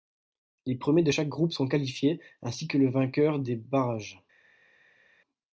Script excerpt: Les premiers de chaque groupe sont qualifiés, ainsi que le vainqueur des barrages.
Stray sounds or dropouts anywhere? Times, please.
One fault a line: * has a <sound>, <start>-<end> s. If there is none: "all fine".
all fine